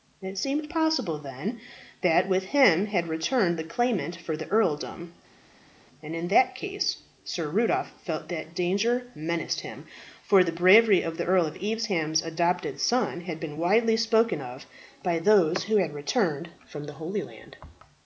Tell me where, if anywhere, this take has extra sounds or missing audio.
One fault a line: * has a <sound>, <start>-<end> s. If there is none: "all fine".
all fine